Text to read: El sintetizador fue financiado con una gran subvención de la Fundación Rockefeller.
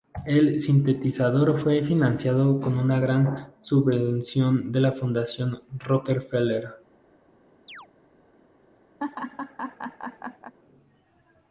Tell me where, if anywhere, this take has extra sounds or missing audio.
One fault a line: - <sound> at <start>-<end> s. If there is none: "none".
- chirp at 7.7-7.9 s
- laugh at 9.0-10.5 s